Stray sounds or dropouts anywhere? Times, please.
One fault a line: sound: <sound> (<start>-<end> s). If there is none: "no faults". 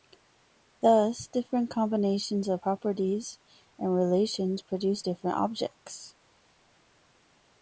no faults